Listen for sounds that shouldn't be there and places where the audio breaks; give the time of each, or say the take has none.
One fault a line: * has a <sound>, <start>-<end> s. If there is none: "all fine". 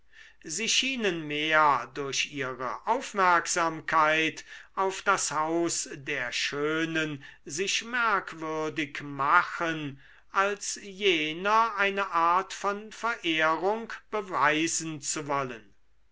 all fine